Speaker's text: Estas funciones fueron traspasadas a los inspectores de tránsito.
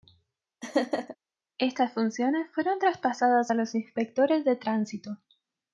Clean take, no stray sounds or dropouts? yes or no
no